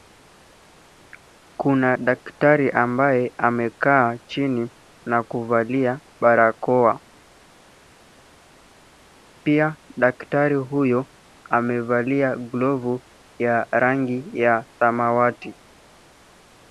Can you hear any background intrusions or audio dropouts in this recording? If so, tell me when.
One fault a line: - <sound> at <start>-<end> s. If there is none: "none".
none